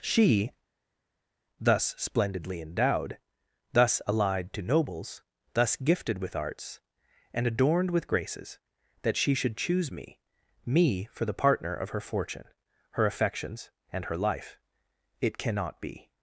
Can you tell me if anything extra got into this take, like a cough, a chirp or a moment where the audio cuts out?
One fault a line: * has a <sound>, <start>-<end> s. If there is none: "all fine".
all fine